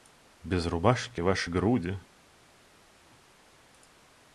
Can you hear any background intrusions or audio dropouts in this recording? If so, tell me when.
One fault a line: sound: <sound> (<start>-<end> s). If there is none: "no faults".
no faults